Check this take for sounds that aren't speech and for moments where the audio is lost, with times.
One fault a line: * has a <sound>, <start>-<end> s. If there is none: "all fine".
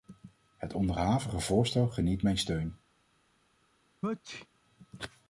* has a sneeze, 4.0-4.5 s